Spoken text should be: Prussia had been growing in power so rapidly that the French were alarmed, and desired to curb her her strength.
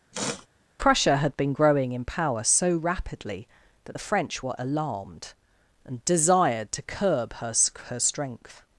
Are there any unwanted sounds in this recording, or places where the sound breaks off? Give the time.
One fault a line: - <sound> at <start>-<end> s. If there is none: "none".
- sniff at 0.1-0.5 s